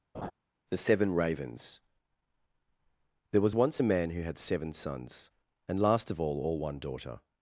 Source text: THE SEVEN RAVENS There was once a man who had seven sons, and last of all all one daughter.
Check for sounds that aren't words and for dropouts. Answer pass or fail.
fail